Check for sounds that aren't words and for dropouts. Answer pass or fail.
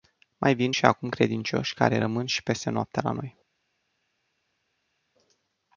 pass